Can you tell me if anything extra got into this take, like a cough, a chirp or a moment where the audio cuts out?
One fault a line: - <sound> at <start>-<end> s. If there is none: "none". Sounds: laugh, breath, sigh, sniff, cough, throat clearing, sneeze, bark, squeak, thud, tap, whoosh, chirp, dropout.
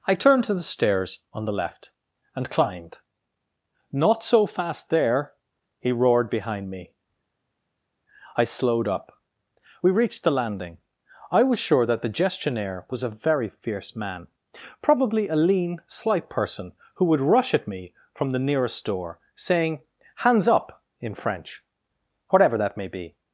none